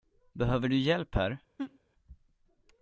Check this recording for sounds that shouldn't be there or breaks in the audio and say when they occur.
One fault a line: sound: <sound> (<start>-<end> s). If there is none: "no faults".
sound: laugh (1.6-1.8 s)